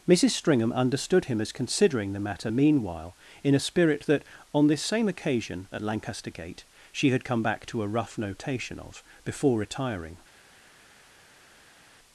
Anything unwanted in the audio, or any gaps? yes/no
no